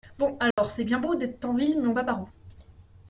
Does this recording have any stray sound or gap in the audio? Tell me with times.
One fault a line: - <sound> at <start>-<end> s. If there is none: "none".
- dropout at 0.5-0.6 s